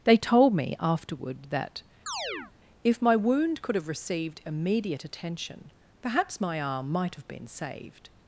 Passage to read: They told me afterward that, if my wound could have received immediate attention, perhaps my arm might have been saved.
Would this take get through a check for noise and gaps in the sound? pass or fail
fail